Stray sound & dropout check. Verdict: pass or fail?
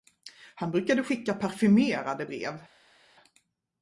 pass